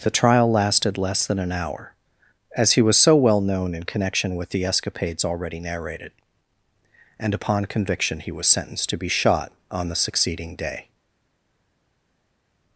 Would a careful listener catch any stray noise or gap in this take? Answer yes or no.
no